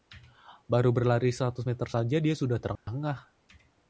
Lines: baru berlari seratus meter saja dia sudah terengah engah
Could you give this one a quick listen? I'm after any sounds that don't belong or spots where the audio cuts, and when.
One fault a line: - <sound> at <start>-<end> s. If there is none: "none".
- dropout at 2.8-2.9 s